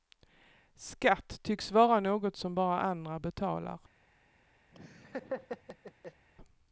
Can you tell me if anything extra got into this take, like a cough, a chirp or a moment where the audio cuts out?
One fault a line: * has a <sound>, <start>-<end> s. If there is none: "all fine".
* has a laugh, 4.7-6.3 s